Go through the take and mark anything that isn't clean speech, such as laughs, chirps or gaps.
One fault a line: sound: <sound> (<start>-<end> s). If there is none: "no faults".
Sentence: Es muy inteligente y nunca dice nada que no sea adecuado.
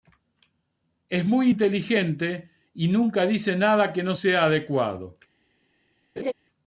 sound: laugh (6.2-6.3 s)